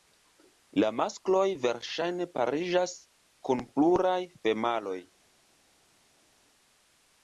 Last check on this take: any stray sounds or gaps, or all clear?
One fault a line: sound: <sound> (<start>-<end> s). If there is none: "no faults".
no faults